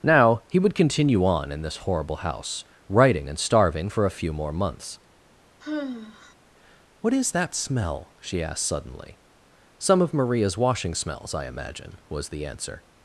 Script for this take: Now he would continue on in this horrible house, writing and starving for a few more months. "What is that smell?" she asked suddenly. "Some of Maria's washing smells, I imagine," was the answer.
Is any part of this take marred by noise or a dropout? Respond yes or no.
yes